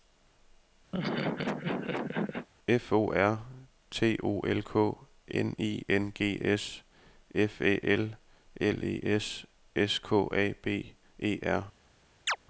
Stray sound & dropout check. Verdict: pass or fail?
fail